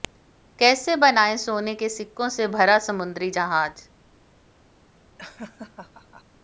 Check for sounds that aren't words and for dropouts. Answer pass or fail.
fail